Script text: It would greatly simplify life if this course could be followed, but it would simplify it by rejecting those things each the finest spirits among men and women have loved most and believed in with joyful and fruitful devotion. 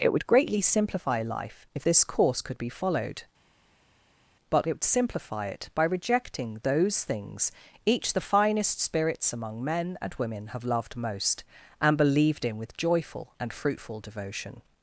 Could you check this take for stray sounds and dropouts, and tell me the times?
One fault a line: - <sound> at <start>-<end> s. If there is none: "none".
none